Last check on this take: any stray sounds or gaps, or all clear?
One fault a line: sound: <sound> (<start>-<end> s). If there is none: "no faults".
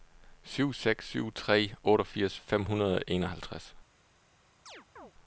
sound: chirp (4.7-5.1 s)